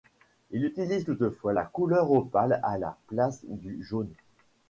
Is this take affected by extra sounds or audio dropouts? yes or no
no